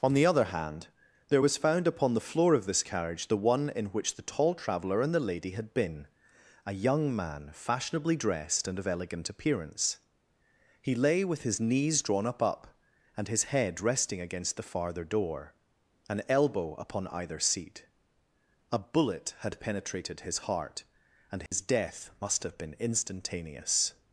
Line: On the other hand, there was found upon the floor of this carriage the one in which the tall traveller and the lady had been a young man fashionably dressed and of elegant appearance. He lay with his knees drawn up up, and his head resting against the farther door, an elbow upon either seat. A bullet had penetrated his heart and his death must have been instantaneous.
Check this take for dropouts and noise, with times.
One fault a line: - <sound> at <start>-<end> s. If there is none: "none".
- dropout at 21.5-21.5 s